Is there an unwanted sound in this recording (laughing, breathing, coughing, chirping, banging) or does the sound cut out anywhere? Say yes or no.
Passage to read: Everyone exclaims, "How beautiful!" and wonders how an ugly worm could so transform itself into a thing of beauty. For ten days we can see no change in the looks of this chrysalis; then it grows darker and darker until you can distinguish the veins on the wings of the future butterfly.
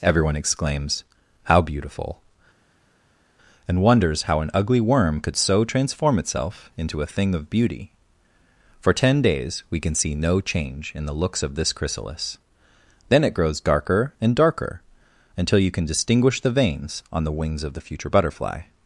no